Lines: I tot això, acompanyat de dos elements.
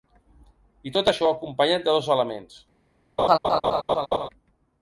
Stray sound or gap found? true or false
true